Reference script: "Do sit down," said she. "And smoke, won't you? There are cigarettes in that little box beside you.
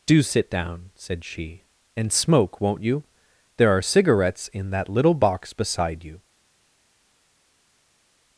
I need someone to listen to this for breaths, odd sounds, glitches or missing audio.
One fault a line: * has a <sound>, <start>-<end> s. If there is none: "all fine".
all fine